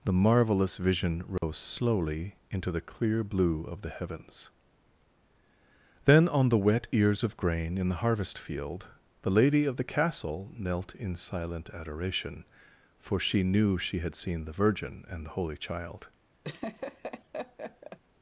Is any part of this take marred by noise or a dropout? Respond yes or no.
yes